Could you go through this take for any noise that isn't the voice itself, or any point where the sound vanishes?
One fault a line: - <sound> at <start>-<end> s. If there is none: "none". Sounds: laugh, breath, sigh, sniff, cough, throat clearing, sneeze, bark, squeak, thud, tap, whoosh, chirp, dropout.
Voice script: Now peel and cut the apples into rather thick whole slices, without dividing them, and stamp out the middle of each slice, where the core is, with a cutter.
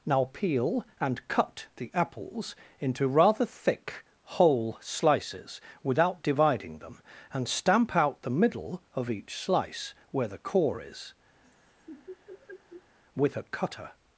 - laugh at 11.4-13.0 s